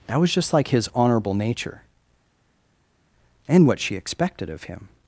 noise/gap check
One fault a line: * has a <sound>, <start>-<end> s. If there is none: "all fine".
all fine